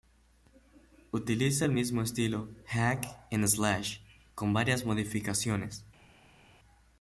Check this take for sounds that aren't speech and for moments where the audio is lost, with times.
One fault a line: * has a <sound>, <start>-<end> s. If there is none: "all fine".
all fine